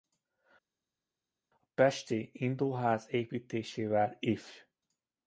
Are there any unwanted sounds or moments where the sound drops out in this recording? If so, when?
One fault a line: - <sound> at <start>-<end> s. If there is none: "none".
none